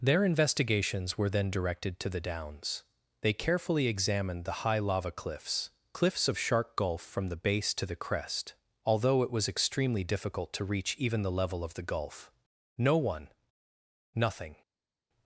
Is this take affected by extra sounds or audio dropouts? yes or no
no